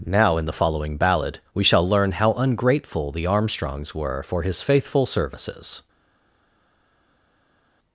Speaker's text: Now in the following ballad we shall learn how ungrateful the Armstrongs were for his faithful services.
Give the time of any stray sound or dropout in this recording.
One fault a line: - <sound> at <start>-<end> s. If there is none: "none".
none